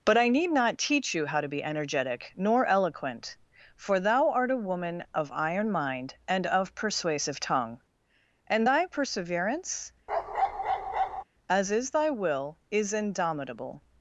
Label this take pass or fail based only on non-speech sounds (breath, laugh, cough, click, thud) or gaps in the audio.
fail